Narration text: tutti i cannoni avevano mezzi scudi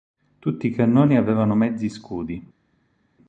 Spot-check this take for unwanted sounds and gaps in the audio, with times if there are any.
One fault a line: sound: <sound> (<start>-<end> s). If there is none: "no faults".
no faults